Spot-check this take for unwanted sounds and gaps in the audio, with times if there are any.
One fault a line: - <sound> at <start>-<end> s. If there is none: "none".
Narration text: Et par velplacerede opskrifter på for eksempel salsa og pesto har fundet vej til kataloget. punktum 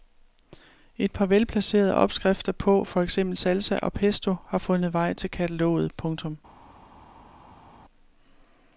none